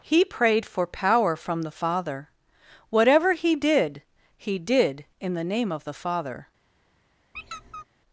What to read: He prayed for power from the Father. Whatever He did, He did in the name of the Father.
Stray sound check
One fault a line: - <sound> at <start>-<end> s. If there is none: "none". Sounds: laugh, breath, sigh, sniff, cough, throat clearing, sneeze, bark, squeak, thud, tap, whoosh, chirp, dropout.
- squeak at 7.3-7.9 s